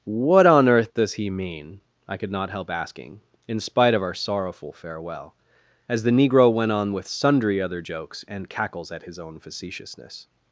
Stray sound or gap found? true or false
false